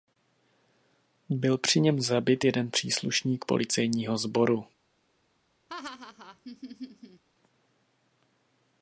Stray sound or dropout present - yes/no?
yes